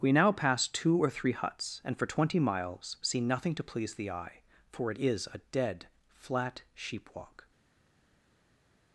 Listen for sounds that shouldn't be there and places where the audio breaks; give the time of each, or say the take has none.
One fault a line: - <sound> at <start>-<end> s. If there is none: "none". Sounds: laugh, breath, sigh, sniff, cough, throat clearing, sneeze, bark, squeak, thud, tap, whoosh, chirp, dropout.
none